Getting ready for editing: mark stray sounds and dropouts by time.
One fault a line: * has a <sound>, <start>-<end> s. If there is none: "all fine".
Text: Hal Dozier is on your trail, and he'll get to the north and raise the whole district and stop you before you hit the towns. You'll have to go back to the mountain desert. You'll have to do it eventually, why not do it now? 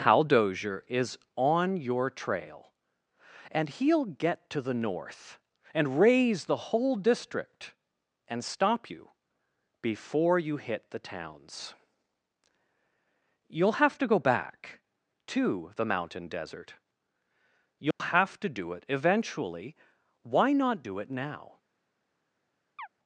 * has a dropout, 17.9-18.0 s
* has a chirp, 22.8-22.9 s